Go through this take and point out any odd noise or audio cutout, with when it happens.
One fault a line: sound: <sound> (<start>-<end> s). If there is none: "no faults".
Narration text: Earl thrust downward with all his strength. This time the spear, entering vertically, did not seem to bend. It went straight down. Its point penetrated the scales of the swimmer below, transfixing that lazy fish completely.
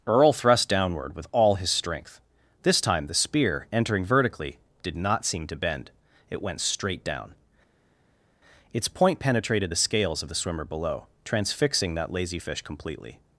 no faults